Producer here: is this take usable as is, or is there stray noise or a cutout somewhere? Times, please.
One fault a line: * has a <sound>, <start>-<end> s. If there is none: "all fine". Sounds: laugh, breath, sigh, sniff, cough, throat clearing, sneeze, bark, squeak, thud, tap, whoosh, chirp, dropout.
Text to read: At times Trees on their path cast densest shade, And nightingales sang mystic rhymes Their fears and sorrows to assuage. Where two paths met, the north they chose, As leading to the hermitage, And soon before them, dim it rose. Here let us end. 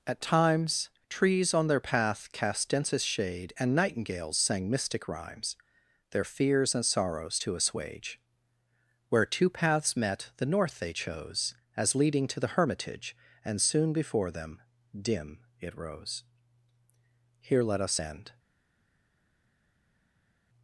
all fine